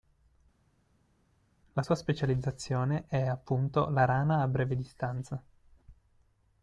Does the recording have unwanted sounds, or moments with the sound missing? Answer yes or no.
no